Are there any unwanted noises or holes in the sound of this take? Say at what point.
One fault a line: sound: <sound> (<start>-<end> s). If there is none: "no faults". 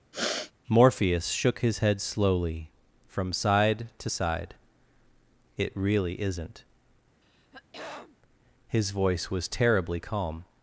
sound: sniff (0.1-0.5 s)
sound: throat clearing (7.2-8.2 s)